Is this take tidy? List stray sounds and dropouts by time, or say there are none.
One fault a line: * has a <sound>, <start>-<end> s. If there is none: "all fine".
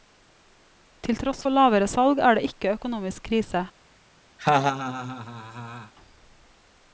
* has a laugh, 4.4-5.9 s